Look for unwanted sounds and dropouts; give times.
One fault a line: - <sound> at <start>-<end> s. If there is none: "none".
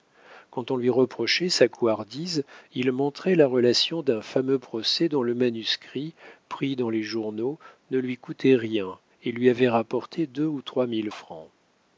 none